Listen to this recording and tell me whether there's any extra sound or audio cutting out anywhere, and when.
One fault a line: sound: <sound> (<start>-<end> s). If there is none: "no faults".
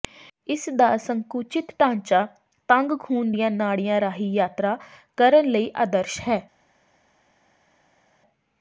no faults